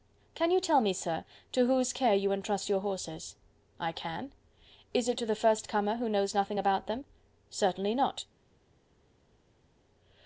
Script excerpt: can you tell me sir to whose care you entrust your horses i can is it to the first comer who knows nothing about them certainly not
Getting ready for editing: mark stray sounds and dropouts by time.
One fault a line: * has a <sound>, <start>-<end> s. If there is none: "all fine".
all fine